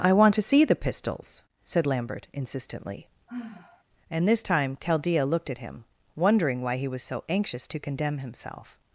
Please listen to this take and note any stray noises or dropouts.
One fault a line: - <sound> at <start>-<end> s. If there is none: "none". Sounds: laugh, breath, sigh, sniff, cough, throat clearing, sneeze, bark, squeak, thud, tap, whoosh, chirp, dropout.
- sigh at 3.3-3.8 s